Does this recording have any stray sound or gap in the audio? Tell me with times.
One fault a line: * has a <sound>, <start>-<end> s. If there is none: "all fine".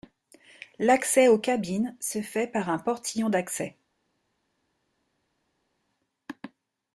all fine